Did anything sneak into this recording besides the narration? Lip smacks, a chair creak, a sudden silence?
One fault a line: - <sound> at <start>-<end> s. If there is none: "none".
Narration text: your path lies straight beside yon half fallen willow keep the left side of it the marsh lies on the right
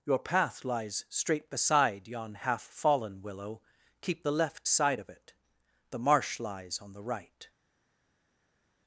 none